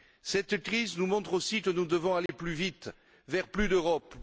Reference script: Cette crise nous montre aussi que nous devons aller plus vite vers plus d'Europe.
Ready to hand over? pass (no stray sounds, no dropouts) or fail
fail